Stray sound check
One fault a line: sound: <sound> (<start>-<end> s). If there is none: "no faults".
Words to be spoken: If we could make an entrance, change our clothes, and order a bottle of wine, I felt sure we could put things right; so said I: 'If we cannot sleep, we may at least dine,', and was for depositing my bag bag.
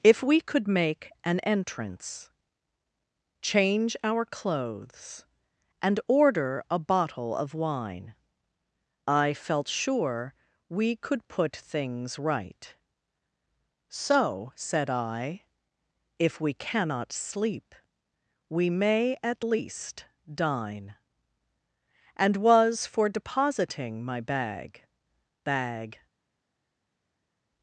no faults